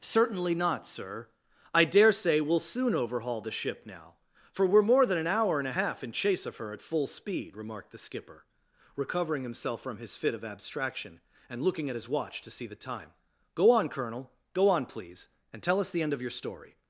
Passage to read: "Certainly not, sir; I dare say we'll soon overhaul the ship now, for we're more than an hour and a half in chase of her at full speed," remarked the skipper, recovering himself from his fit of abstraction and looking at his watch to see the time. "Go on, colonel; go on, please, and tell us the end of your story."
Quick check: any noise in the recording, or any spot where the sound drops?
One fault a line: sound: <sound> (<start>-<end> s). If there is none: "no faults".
no faults